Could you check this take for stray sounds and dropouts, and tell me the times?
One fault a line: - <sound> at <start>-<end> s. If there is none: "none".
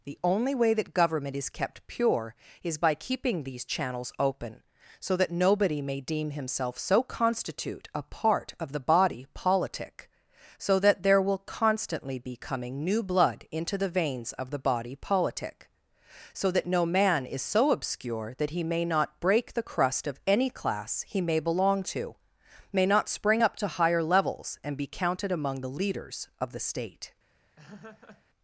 - laugh at 27.6-28.2 s